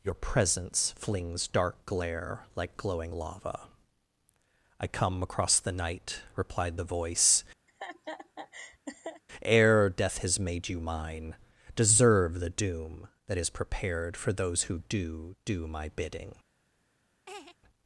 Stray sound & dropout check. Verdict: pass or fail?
fail